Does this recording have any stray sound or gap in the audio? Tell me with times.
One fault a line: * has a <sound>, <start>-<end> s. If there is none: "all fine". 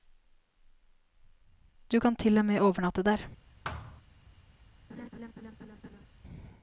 * has a thud, 3.6-4.0 s
* has a laugh, 4.9-6.1 s